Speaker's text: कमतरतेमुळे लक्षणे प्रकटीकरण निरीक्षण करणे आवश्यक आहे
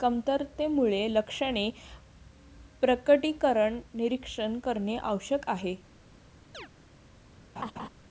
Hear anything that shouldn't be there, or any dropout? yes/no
yes